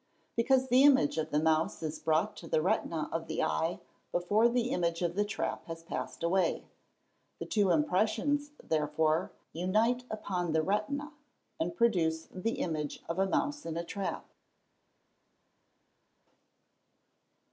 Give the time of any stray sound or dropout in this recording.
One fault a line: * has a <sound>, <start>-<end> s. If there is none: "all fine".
all fine